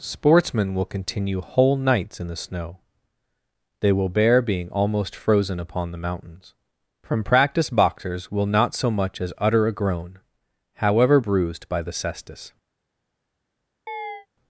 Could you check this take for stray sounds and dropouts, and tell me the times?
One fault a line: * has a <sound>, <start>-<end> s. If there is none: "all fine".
* has a chirp, 13.9-14.3 s